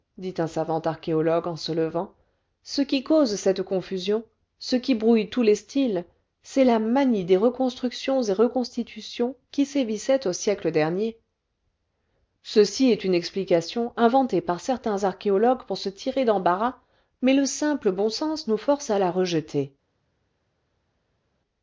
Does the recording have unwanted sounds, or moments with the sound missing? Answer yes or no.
no